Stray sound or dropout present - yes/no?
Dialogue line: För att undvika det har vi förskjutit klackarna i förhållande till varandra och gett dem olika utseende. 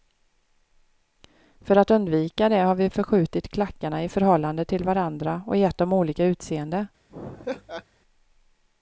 yes